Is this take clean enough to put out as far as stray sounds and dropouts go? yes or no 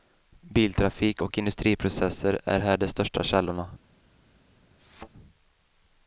no